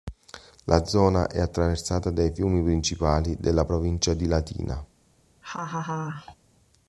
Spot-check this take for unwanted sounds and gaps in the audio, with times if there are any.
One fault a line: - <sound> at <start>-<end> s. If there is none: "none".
- laugh at 5.4-6.4 s